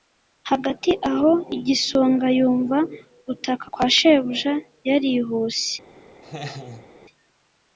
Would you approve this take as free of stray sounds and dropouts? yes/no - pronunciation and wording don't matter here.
no